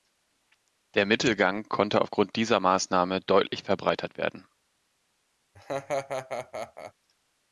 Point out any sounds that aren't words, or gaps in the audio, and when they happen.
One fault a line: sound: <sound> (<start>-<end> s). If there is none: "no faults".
sound: laugh (5.5-6.9 s)